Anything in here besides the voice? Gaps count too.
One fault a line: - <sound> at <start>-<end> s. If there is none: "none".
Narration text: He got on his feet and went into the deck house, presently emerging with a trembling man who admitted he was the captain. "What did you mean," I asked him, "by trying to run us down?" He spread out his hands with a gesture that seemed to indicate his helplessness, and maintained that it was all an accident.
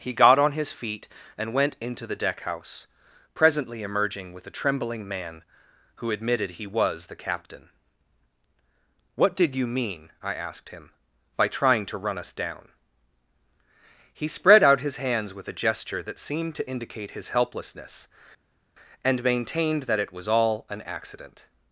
none